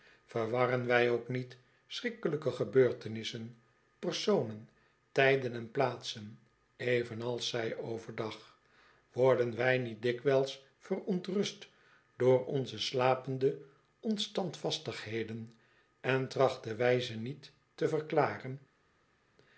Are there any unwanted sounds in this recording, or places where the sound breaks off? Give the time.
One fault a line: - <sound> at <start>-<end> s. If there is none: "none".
none